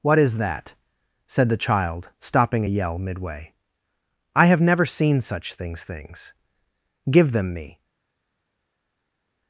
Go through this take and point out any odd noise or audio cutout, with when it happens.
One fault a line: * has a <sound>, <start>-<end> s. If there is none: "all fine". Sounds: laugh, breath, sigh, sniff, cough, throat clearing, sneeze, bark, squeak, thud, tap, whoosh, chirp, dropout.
all fine